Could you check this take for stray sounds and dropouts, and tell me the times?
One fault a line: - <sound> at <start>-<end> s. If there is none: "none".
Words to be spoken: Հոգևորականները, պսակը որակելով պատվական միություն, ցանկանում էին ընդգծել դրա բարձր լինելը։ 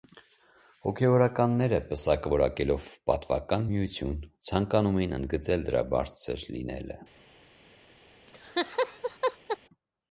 - laugh at 8.3-9.6 s